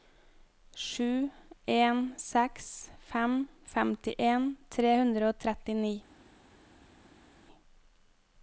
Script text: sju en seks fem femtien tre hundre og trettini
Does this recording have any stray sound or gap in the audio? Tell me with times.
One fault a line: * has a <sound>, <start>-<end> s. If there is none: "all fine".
all fine